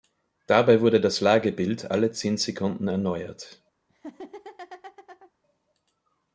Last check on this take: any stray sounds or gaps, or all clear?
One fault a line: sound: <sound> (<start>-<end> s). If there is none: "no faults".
sound: laugh (3.9-5.3 s)